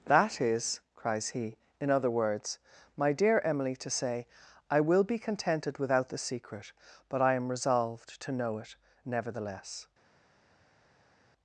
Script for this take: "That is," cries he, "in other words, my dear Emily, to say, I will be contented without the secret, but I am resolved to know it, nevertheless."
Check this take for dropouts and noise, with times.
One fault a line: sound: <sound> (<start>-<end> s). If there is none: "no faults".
no faults